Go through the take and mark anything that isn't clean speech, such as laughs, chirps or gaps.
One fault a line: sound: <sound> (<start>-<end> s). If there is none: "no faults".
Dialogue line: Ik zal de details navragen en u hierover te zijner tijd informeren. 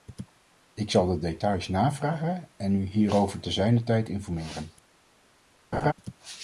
sound: laugh (5.7-5.9 s)